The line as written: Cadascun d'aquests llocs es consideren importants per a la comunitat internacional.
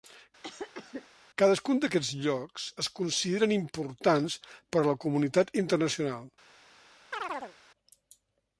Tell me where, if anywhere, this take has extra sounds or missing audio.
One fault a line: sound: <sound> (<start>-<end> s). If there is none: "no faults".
sound: cough (0.4-1.1 s)
sound: chirp (7.1-7.5 s)